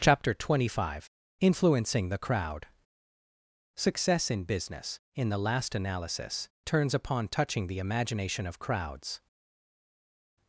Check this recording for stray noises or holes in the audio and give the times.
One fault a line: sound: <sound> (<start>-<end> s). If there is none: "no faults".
no faults